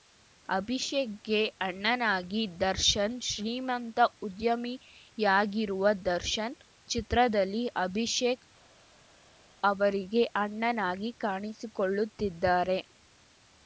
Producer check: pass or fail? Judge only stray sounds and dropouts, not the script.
pass